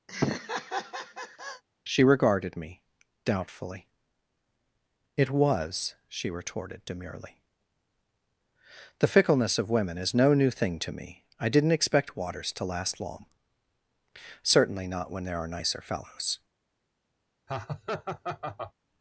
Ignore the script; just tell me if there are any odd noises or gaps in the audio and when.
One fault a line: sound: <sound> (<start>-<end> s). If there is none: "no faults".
sound: laugh (0.1-1.6 s)
sound: laugh (17.5-18.7 s)